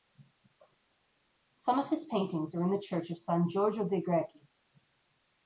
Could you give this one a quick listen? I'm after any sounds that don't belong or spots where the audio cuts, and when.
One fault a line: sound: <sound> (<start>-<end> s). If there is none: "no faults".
no faults